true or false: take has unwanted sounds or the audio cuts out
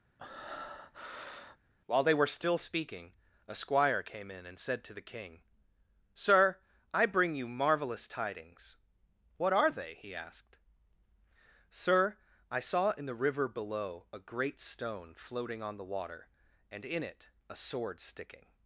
true